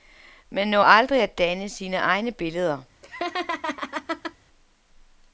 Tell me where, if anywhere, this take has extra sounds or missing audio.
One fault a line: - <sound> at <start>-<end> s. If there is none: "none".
- laugh at 3.0-4.4 s